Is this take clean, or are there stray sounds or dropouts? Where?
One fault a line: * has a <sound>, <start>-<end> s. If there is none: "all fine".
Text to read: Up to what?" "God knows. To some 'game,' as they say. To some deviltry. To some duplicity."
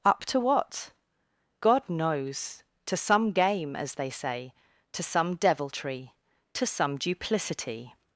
all fine